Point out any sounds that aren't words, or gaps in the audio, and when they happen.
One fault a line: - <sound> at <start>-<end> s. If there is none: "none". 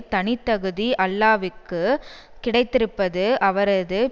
none